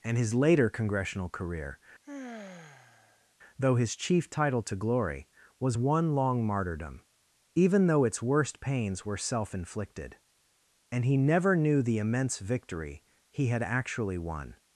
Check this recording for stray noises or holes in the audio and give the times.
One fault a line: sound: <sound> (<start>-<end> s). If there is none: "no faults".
sound: sigh (2.0-3.3 s)